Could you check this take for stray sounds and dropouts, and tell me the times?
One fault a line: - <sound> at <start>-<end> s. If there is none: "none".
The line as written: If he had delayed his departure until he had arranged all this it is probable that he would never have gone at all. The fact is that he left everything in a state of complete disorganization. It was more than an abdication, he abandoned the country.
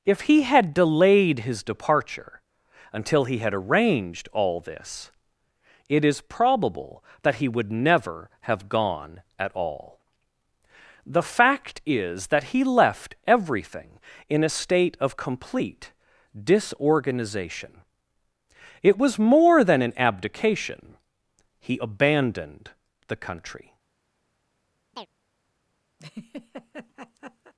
- chirp at 24.9-25.1 s
- laugh at 26.0-27.5 s